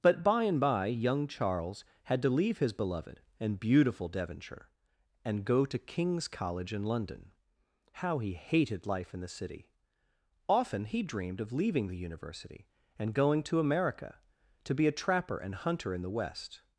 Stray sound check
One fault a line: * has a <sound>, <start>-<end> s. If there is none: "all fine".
all fine